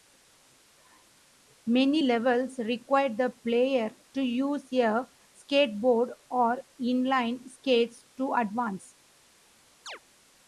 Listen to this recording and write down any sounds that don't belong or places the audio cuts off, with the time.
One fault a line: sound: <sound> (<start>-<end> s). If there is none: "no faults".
sound: chirp (9.9-10.0 s)